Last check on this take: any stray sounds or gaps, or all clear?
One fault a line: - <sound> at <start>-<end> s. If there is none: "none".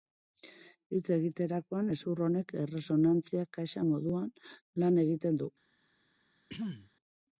- throat clearing at 6.5-6.9 s